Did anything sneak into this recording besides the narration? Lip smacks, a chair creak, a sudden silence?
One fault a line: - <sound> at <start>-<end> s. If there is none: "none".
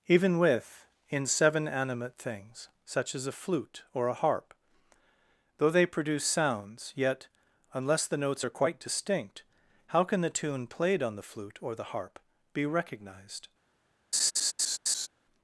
- laugh at 14.1-15.1 s